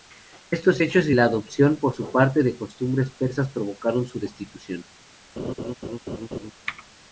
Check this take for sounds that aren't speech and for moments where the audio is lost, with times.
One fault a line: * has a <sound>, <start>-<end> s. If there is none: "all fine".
* has a laugh, 5.4-6.5 s